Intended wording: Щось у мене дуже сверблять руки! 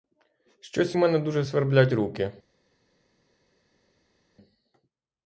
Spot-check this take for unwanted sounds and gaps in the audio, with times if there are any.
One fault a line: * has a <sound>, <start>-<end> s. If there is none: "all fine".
all fine